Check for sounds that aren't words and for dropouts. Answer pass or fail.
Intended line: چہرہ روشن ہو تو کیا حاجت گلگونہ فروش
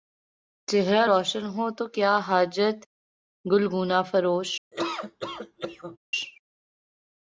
fail